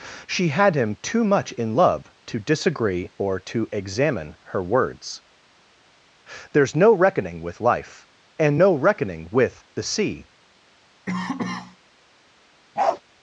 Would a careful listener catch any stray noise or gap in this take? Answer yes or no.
yes